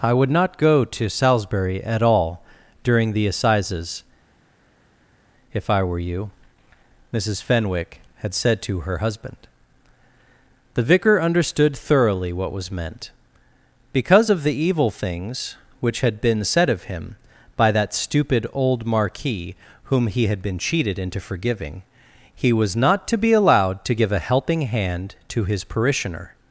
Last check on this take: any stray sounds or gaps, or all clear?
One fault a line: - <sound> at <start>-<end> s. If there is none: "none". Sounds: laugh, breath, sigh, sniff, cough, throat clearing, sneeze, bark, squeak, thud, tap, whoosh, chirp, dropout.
none